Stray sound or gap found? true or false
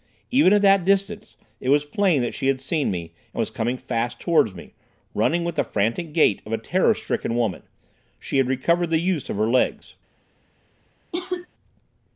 true